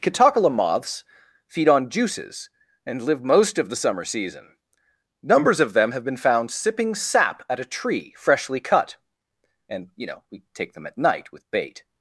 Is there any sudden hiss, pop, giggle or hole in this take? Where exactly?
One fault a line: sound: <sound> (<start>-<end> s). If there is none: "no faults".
no faults